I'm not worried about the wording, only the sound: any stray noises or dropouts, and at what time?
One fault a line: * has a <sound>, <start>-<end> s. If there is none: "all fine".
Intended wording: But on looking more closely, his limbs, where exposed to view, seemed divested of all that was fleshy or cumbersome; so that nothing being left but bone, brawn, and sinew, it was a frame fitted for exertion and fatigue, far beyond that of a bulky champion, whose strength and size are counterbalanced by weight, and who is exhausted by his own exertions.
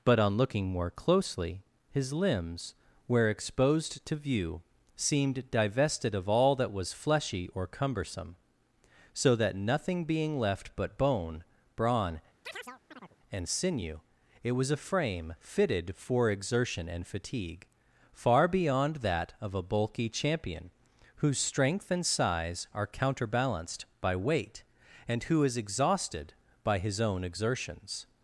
* has a chirp, 12.4-13.2 s